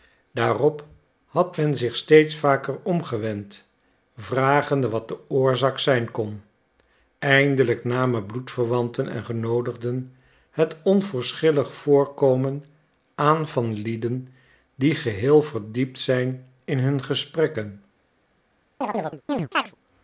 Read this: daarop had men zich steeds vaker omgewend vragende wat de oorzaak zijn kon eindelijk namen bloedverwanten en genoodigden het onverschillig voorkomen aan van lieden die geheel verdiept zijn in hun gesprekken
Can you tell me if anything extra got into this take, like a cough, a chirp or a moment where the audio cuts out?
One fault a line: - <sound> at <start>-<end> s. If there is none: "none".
- chirp at 18.8-19.8 s